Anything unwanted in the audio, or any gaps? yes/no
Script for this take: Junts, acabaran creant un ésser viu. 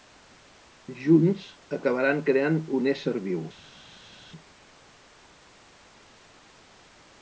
no